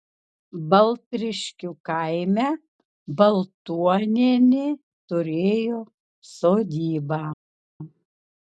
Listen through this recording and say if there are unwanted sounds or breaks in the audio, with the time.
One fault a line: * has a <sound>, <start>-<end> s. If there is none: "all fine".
all fine